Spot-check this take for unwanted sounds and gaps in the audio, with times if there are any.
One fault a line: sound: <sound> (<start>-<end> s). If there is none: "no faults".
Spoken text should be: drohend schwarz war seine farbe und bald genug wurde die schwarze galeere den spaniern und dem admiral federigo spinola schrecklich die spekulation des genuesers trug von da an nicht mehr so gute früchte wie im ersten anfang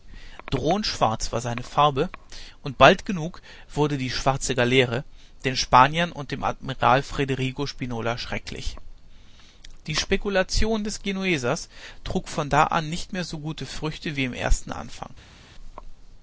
no faults